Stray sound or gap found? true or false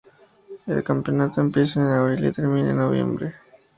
false